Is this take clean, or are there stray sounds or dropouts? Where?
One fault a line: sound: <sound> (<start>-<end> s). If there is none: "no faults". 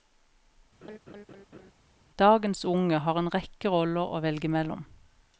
sound: laugh (0.8-1.7 s)